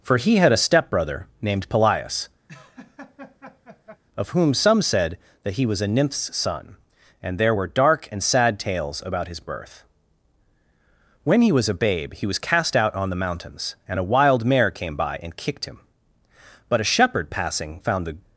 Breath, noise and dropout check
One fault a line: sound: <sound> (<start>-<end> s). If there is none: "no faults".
sound: laugh (2.5-4.0 s)